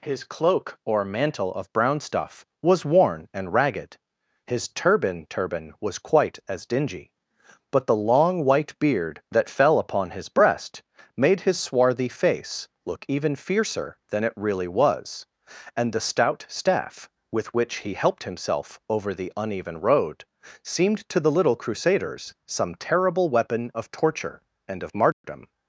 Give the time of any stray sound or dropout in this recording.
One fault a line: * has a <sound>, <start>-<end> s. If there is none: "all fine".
* has a dropout, 25.1-25.2 s